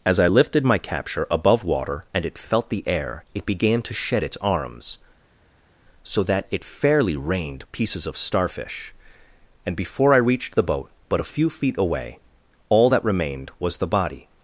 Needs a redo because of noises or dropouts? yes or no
no